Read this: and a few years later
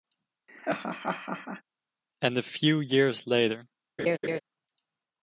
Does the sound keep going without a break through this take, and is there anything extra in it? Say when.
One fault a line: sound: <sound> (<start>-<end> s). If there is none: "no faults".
sound: laugh (0.5-1.6 s)
sound: laugh (4.0-4.4 s)